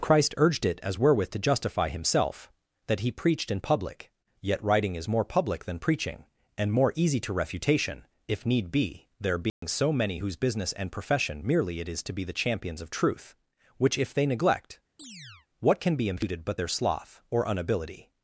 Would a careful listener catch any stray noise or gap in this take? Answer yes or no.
yes